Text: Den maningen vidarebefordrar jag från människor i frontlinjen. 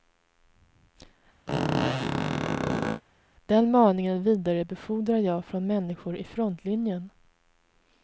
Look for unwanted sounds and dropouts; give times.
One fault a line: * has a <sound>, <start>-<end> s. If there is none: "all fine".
* has a squeak, 1.5-3.0 s